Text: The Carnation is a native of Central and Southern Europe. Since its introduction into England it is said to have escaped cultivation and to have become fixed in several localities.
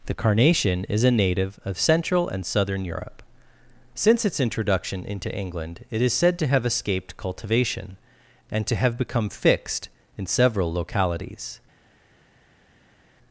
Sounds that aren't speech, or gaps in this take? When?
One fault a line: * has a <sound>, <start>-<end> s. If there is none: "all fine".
all fine